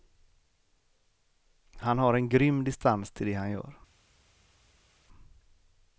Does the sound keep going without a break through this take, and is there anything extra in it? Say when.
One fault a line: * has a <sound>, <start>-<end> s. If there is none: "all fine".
all fine